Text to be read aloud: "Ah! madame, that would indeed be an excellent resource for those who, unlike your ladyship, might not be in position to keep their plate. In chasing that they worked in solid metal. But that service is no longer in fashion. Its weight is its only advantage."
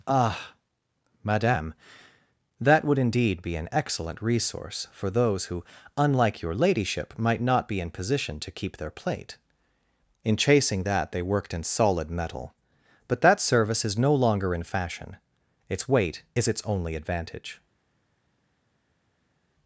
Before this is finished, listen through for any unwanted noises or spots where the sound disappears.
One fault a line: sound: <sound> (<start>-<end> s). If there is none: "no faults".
no faults